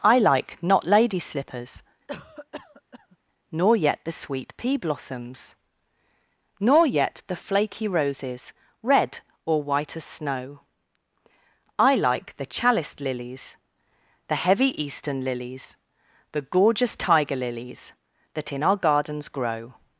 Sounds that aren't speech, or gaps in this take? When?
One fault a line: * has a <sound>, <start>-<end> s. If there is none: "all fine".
* has a cough, 2.1-3.2 s